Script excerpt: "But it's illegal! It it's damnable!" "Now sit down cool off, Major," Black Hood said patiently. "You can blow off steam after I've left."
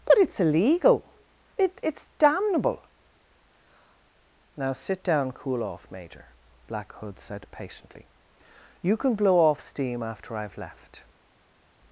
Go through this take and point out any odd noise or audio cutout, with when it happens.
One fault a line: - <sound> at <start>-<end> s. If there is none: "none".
none